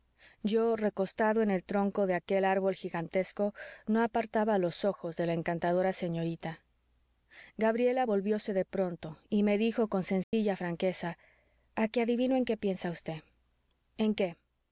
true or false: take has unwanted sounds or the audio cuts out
true